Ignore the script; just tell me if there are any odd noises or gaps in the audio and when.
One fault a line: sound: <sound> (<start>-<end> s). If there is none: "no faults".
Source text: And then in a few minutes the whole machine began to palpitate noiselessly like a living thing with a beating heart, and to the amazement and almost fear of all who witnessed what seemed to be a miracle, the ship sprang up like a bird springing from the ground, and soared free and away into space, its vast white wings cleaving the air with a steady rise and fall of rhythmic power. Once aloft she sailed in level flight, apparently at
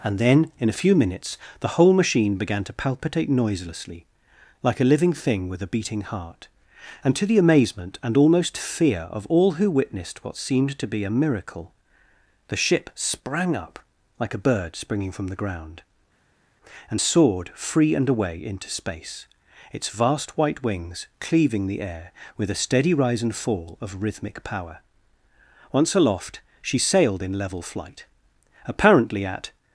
no faults